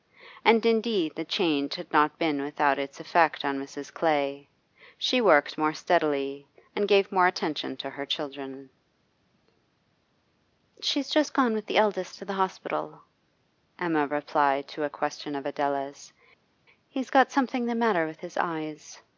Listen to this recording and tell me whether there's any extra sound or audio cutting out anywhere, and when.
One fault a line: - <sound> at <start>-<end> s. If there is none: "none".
none